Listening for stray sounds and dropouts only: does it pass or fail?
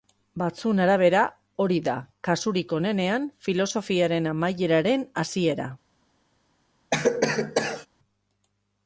fail